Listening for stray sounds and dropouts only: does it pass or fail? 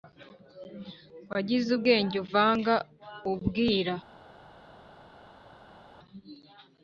pass